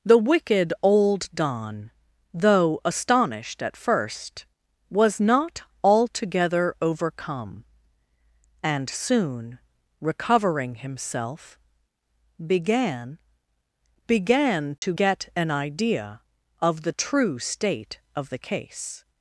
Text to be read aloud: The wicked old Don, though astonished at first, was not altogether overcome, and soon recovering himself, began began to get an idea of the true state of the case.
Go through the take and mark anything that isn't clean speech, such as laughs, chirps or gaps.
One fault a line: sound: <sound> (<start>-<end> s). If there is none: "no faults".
sound: dropout (14.8-14.8 s)